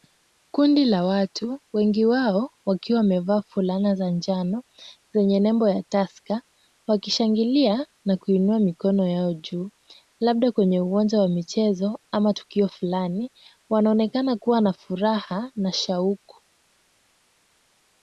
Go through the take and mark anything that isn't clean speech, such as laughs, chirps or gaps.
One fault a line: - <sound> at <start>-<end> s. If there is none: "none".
none